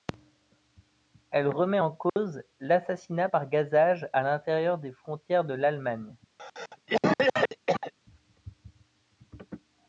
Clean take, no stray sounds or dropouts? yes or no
no